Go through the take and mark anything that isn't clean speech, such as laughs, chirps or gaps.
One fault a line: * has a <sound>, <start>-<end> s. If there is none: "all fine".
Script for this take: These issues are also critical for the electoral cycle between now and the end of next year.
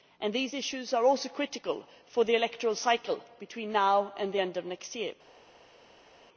all fine